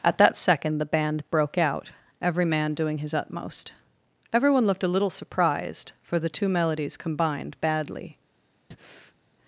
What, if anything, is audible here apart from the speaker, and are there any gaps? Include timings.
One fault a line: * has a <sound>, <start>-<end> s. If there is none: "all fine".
* has a breath, 8.7-9.2 s